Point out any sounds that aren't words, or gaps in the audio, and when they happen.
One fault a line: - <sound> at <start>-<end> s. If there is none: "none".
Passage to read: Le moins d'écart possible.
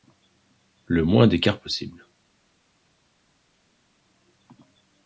none